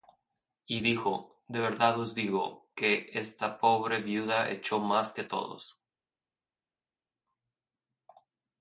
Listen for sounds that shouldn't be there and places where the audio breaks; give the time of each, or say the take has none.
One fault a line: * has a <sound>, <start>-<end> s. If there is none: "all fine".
all fine